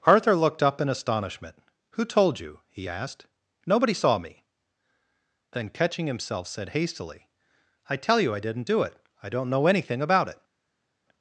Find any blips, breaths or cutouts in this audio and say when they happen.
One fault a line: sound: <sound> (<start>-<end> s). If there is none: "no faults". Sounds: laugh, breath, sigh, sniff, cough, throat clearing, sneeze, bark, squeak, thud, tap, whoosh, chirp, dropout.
no faults